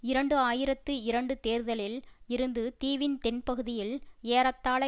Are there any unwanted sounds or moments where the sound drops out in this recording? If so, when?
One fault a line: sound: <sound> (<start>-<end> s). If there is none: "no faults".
no faults